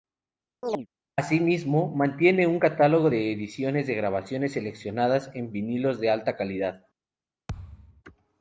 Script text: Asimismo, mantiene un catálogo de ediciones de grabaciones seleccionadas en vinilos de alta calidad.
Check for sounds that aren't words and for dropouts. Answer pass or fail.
fail